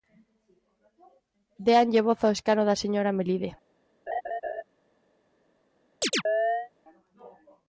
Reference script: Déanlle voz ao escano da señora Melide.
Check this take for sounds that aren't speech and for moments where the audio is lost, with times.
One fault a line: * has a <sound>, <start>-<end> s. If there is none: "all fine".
* has a laugh, 4.1-4.6 s
* has a chirp, 6.0-6.7 s